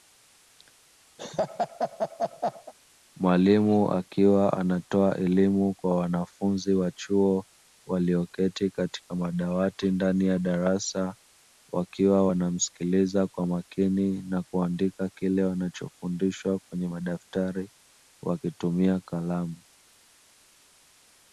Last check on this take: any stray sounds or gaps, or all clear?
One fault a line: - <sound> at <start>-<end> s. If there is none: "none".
- laugh at 1.2-2.7 s